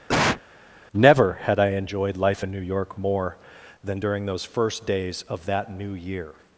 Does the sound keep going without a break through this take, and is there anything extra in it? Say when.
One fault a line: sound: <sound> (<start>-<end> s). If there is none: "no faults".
sound: cough (0.1-0.4 s)